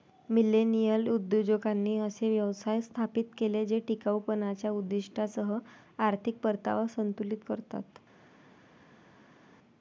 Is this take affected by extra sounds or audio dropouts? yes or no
no